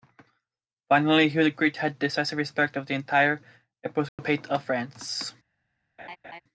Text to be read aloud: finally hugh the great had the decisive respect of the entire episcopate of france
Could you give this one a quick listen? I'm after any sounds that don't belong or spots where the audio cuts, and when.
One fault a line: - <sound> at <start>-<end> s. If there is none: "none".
- dropout at 4.1-4.2 s
- laugh at 6.0-6.4 s